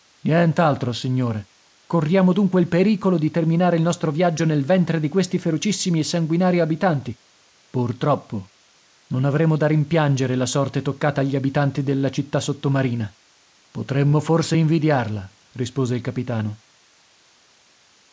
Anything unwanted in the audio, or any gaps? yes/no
no